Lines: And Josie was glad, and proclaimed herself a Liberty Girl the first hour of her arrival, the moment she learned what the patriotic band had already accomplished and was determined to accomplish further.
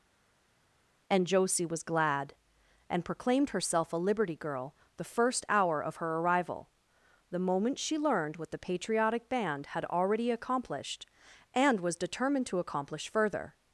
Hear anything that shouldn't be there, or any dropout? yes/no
no